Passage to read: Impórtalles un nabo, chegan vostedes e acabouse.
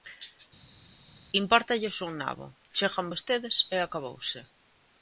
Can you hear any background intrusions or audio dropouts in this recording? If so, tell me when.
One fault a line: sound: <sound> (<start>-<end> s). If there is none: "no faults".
no faults